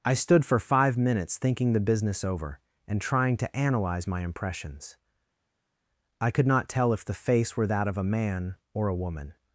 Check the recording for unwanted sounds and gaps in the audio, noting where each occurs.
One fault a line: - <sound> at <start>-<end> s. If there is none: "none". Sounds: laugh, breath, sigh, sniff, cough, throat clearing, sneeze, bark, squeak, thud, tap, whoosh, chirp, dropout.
none